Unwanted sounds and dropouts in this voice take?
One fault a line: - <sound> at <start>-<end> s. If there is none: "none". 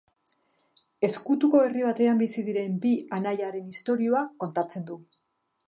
none